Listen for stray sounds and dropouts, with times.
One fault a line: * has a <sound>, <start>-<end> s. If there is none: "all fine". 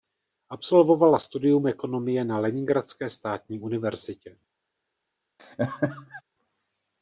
* has a laugh, 5.4-6.2 s